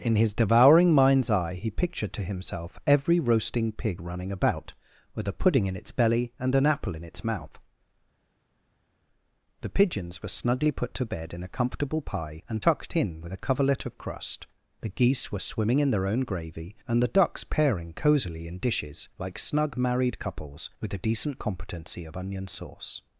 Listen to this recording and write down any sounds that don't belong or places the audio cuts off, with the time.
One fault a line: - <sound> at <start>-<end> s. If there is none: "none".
none